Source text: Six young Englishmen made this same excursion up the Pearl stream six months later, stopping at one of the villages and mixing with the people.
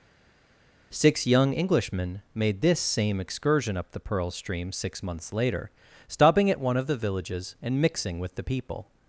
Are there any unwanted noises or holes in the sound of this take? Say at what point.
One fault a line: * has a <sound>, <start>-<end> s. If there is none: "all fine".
all fine